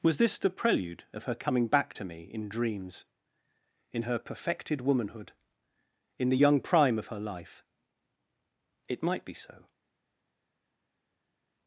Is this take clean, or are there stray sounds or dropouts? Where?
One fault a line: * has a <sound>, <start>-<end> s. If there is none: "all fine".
all fine